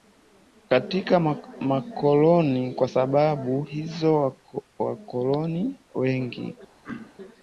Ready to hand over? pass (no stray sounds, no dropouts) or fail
fail